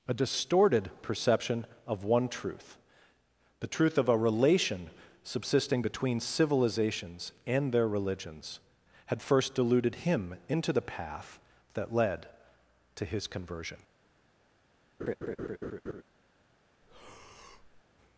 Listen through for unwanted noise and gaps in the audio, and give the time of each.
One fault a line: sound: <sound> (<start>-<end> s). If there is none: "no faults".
sound: laugh (15.0-16.0 s)
sound: breath (16.8-17.8 s)